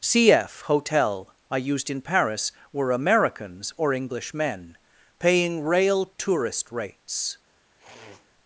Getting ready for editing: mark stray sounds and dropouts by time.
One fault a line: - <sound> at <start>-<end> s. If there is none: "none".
- sniff at 7.8-8.3 s